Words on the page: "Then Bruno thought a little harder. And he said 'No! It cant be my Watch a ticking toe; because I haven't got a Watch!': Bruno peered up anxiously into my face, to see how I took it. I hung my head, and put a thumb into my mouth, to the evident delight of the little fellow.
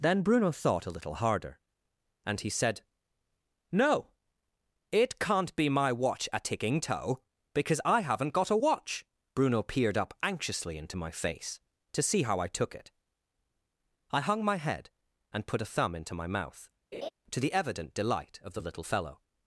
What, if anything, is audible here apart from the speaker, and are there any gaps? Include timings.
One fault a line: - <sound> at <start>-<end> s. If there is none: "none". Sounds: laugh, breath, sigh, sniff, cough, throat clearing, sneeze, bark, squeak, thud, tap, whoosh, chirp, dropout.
- laugh at 16.9-17.1 s